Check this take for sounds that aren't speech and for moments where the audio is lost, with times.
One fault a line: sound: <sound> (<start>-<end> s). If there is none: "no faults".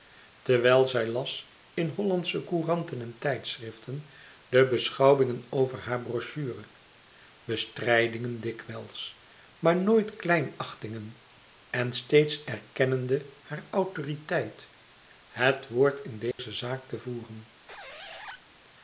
sound: dropout (16.3-16.4 s)
sound: squeak (17.7-18.4 s)